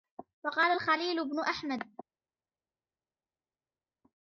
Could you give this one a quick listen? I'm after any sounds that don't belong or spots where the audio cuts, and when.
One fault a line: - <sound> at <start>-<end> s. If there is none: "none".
none